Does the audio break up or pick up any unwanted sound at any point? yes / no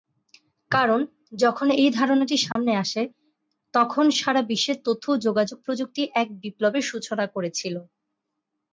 yes